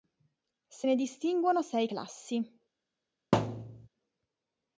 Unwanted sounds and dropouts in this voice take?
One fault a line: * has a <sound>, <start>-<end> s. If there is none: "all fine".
* has a thud, 3.3-3.9 s